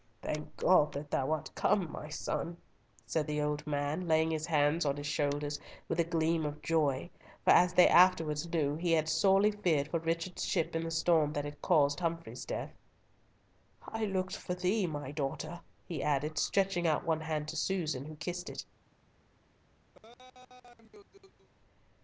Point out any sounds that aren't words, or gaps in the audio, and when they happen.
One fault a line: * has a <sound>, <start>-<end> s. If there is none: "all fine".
* has a laugh, 19.9-21.5 s